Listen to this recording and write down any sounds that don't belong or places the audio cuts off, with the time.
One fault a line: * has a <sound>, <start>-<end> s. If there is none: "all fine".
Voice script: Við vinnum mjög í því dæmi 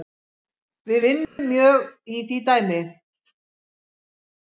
* has a dropout, 1.2-1.4 s